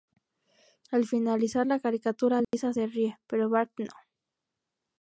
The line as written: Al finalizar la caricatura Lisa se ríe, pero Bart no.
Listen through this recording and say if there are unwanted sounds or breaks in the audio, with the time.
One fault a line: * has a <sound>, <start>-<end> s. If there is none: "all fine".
* has a dropout, 2.4-2.5 s